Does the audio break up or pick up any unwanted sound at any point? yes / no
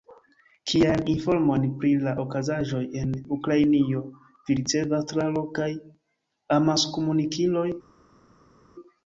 no